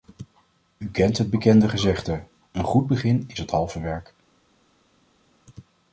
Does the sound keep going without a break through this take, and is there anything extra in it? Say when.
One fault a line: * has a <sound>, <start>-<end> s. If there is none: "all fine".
all fine